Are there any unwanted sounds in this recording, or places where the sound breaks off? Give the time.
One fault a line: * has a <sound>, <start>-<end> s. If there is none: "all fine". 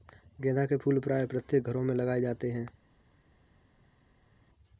all fine